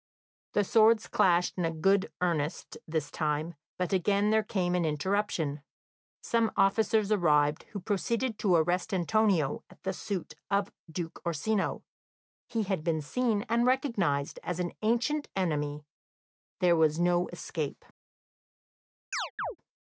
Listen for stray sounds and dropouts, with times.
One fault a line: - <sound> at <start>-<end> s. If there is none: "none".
- chirp at 19.1-19.6 s